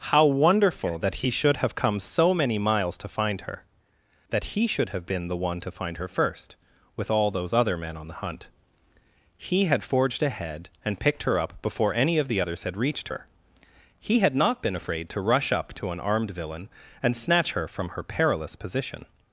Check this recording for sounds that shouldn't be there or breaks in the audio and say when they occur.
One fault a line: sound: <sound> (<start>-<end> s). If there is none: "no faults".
no faults